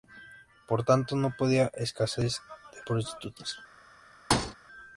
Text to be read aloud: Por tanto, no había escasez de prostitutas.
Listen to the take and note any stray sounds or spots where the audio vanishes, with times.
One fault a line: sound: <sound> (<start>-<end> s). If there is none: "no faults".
sound: thud (4.3-4.6 s)